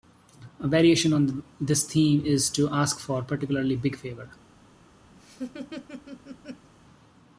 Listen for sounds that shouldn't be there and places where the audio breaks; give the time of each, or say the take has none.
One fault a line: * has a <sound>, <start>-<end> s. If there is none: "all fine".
* has a laugh, 5.1-6.7 s